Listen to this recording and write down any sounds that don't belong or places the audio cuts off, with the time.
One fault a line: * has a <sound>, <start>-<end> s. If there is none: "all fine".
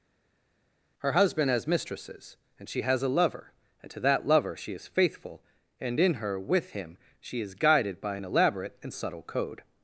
all fine